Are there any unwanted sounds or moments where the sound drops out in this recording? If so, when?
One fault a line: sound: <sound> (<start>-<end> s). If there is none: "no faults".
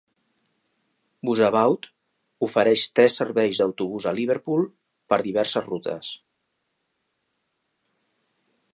no faults